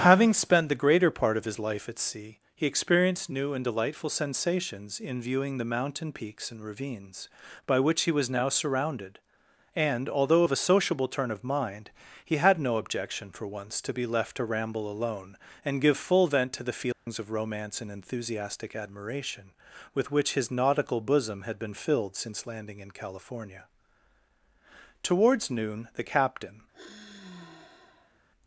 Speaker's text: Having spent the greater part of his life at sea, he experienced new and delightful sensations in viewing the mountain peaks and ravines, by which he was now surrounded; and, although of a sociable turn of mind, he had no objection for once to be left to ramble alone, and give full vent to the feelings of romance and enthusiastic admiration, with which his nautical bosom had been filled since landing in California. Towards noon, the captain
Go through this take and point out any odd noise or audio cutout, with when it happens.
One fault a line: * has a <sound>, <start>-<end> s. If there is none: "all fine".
* has a dropout, 16.9-17.1 s
* has a sigh, 26.7-28.2 s